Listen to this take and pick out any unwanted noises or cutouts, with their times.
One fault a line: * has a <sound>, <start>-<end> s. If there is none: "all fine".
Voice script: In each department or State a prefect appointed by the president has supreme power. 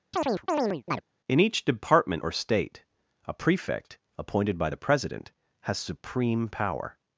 * has a chirp, 0.1-1.0 s